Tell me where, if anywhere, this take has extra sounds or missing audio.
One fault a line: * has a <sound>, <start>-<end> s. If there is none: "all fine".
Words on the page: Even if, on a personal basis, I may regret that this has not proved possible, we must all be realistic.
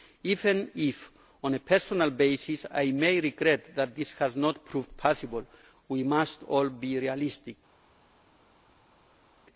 all fine